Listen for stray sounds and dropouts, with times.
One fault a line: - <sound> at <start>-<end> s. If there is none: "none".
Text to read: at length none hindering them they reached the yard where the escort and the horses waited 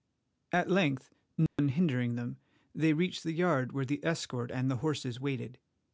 - dropout at 1.5-1.6 s